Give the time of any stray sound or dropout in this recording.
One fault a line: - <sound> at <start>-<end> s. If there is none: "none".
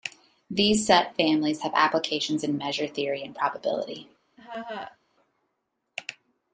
- laugh at 4.4-5.0 s